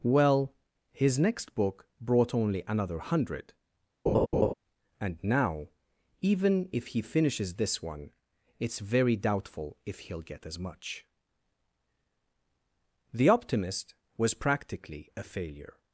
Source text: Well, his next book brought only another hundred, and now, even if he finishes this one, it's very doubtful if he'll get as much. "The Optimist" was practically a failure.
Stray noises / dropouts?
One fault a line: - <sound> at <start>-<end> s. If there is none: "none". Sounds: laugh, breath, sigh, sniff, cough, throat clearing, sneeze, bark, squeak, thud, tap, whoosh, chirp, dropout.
- laugh at 4.1-4.5 s